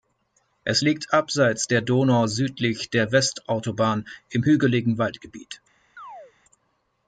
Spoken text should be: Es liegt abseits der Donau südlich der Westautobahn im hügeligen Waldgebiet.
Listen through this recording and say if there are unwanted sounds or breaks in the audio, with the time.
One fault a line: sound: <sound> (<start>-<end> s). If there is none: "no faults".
sound: chirp (6.0-6.3 s)